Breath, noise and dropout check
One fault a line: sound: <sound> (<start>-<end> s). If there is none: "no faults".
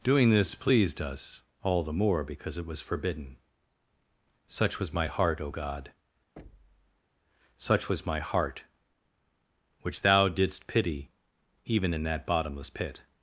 sound: thud (6.4-7.0 s)